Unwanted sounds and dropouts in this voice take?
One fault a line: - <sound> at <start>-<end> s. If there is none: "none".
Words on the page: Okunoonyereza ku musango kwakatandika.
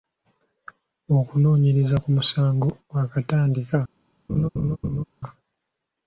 - laugh at 4.3-5.0 s